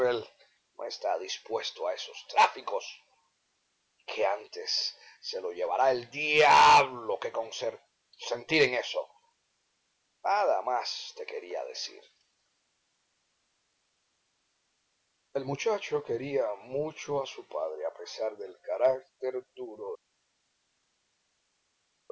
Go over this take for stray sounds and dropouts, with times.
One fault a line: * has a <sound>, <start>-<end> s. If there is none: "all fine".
all fine